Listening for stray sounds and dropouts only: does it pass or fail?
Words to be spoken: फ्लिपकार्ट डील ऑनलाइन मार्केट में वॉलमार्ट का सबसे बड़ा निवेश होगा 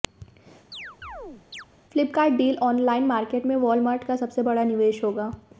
fail